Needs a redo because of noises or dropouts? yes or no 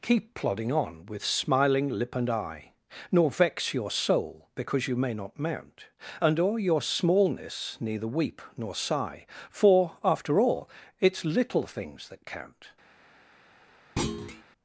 yes